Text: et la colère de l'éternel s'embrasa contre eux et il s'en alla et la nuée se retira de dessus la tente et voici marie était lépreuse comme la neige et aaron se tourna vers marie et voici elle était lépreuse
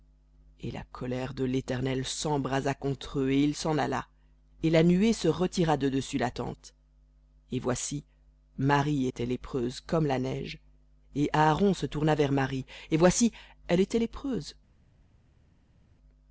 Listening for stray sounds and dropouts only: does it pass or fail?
pass